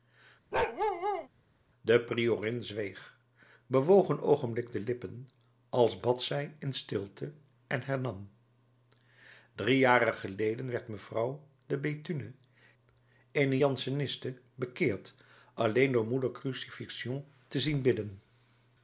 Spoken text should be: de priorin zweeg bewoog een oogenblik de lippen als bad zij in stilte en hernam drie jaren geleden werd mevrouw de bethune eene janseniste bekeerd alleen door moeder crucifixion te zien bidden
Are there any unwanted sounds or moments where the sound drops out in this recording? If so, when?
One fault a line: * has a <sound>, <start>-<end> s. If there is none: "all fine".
* has a bark, 0.5-1.3 s